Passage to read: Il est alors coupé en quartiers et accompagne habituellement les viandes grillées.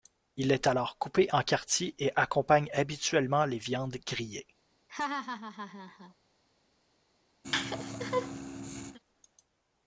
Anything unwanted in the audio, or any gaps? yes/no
yes